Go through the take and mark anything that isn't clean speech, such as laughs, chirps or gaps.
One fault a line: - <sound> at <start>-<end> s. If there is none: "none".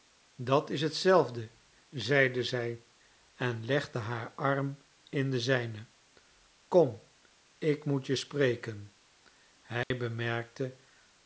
- dropout at 9.8-9.9 s